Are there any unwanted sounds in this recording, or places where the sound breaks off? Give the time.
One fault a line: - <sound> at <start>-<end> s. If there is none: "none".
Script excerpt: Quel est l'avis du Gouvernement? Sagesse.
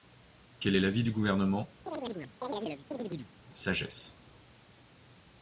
- chirp at 1.9-3.3 s